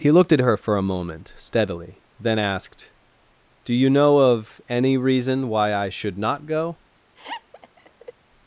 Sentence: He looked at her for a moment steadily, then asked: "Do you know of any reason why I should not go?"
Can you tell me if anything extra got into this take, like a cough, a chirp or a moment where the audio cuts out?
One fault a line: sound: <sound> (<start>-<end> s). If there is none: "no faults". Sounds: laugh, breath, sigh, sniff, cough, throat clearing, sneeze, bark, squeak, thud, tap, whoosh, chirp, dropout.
sound: laugh (7.2-8.1 s)